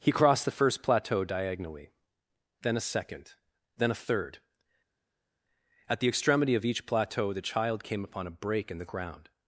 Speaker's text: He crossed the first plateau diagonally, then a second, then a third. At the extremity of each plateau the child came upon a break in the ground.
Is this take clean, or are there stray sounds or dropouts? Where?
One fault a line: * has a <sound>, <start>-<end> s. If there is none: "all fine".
all fine